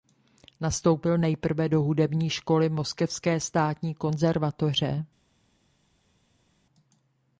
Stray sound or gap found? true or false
false